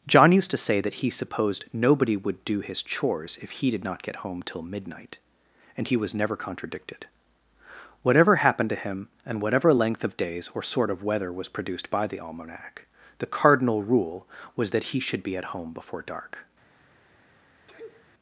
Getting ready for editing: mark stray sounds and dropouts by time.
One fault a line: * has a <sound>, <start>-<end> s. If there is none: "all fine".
* has a sneeze, 17.7-18.1 s